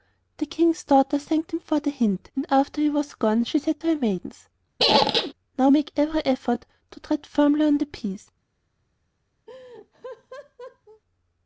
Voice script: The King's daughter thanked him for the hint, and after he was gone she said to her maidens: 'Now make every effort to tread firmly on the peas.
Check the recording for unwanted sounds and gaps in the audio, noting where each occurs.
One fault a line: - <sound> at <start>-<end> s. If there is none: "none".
- squeak at 4.8-5.3 s
- laugh at 9.5-11.0 s